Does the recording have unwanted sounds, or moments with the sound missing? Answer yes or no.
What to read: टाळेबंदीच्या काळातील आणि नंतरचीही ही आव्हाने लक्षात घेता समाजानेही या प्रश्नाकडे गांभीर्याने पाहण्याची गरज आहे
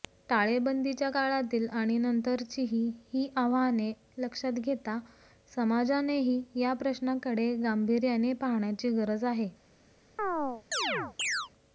yes